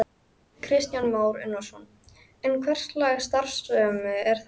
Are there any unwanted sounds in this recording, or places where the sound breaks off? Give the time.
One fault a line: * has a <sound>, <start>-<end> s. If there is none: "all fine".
all fine